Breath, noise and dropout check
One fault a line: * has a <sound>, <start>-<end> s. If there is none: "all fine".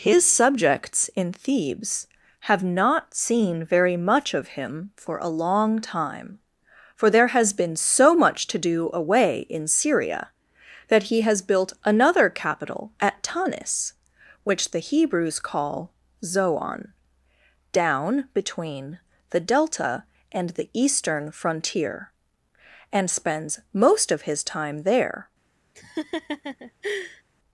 * has a laugh, 25.7-27.2 s